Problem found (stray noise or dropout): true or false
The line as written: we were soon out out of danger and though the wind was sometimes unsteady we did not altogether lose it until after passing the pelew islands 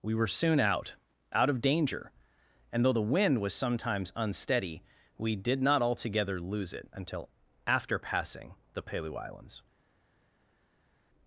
false